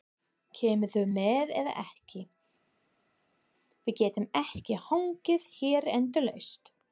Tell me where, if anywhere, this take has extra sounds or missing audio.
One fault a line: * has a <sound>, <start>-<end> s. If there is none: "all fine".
all fine